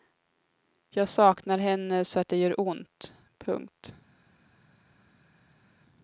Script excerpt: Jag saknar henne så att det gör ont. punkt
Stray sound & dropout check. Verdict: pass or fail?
pass